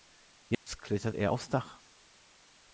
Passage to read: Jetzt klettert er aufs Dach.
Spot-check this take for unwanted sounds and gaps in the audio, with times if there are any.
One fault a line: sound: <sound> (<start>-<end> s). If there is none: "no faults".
sound: dropout (0.5-0.7 s)